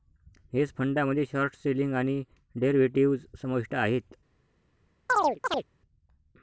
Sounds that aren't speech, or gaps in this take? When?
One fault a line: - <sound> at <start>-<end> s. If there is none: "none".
- chirp at 5.1-5.7 s